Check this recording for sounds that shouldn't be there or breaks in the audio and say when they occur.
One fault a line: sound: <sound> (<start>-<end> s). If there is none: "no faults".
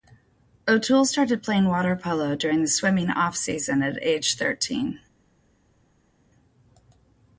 no faults